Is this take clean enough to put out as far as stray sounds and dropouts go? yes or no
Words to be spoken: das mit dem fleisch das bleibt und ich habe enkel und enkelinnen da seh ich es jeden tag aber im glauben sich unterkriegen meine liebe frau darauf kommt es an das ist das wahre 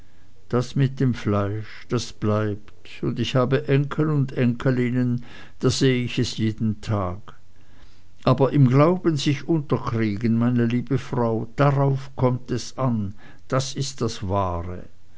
yes